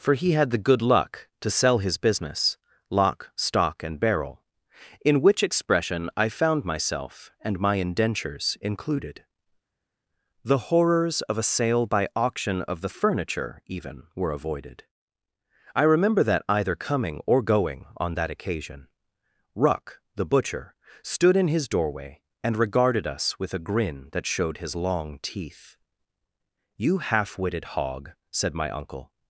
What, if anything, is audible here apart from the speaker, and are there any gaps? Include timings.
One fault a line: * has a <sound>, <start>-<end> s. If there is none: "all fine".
all fine